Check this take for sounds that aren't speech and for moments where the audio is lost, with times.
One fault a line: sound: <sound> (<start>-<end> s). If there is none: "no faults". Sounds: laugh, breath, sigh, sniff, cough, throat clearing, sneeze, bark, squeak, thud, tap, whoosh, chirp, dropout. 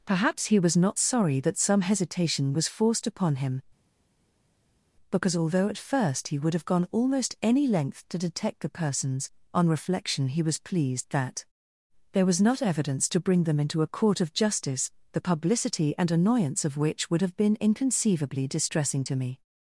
no faults